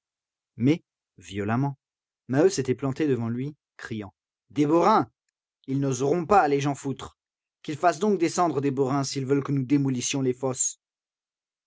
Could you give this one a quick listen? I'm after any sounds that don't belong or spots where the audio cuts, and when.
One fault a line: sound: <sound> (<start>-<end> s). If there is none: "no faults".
no faults